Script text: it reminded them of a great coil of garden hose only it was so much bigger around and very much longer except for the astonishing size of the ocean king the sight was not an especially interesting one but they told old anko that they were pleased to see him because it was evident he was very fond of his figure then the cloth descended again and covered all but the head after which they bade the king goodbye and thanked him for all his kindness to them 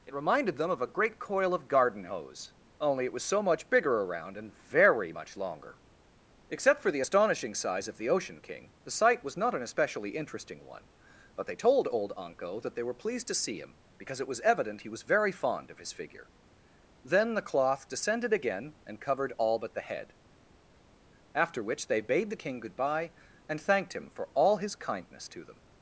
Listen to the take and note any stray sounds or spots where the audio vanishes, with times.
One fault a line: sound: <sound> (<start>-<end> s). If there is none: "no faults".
no faults